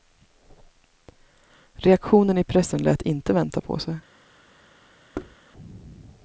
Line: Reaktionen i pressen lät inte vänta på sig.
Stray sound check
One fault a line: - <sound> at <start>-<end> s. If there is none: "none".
- thud at 5.1-5.4 s